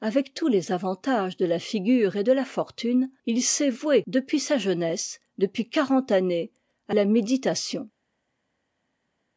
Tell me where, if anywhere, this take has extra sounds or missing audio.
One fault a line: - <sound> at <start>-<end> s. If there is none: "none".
none